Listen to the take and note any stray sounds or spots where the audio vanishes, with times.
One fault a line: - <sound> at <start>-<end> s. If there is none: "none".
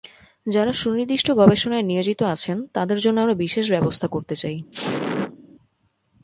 - sneeze at 4.7-5.4 s